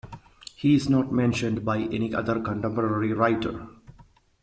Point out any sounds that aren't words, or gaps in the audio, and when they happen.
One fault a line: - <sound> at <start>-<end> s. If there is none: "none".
none